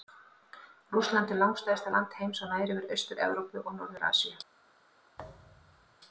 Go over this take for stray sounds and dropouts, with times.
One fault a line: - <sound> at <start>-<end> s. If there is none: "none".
- thud at 5.2-6.0 s